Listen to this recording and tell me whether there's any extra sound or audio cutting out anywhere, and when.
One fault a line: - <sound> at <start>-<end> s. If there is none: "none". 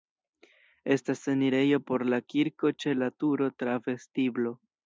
none